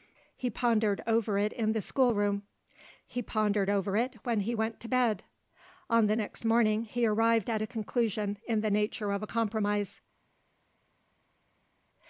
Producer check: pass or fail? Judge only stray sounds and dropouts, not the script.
pass